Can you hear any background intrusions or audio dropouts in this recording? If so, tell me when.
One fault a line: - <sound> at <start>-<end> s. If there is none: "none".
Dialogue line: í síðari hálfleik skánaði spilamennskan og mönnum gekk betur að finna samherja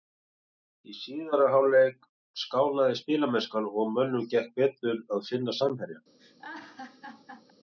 - laugh at 6.2-7.5 s